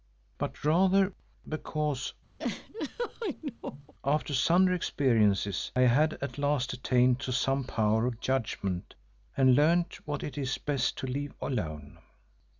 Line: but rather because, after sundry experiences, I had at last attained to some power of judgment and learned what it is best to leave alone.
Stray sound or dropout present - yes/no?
yes